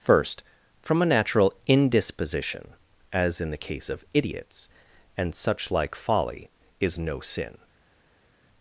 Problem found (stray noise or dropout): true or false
false